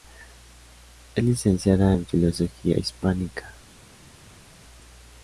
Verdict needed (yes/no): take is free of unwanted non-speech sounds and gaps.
yes